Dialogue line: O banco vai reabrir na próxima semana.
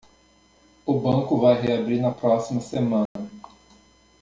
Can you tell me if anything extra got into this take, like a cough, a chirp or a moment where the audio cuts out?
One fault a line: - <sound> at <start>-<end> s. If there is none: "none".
- dropout at 3.1-3.2 s